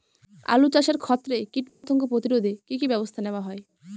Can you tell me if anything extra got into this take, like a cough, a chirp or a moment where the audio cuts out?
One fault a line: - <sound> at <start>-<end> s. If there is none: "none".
- dropout at 1.7-1.8 s